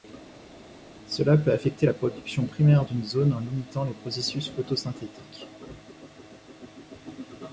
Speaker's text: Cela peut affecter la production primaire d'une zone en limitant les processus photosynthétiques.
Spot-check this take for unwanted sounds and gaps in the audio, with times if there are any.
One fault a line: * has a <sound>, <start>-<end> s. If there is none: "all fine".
all fine